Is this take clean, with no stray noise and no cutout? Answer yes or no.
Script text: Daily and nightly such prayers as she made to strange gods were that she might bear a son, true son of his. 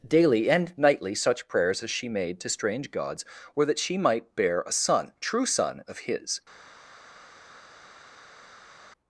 yes